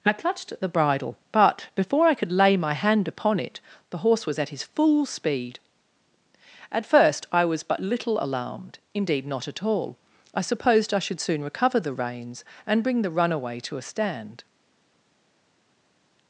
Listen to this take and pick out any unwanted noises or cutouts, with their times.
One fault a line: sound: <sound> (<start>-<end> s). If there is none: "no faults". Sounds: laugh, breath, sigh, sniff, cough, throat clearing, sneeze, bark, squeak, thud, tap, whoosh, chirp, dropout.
no faults